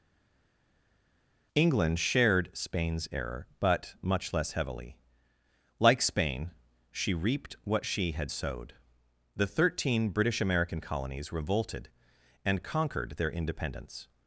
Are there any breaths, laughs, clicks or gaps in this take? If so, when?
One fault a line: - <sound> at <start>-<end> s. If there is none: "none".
none